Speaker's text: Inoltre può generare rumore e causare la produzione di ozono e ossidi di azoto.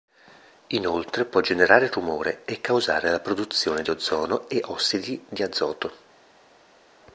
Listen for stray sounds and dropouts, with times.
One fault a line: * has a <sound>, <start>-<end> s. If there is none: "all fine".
all fine